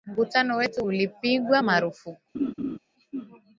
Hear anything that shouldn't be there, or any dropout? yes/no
yes